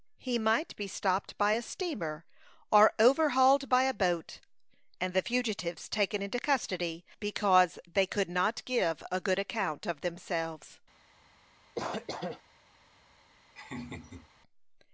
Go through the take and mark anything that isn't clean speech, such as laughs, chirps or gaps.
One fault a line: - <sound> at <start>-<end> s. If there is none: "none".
- cough at 11.7-12.4 s
- laugh at 13.6-14.3 s